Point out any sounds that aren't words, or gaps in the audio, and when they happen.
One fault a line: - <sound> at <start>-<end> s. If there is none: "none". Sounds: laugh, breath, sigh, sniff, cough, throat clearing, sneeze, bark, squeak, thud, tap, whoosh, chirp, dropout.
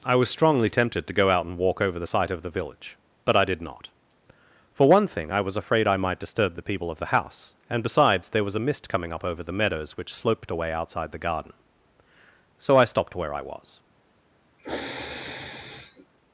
- sniff at 14.6-16.1 s